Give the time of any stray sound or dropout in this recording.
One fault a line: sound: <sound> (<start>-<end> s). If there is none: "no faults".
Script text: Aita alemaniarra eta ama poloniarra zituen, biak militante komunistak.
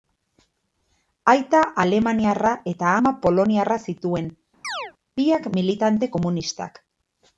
sound: chirp (4.6-4.9 s)